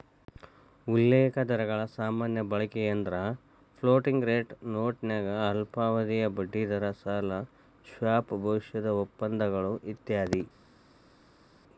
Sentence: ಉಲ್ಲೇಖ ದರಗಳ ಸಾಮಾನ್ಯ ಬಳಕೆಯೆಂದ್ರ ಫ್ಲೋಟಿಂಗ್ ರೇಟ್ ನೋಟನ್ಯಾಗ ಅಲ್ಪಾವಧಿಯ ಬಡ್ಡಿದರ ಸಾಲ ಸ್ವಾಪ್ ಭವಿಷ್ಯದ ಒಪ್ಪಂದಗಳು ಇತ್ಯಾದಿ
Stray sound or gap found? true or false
false